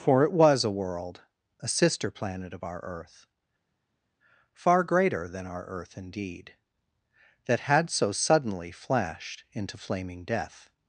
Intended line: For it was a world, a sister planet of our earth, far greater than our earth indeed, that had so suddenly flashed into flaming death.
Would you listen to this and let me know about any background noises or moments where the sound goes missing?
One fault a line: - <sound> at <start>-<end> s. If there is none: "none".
none